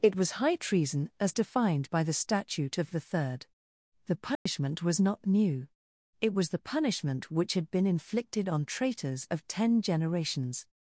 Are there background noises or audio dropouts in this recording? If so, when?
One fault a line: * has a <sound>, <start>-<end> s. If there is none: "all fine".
* has a dropout, 4.4-4.5 s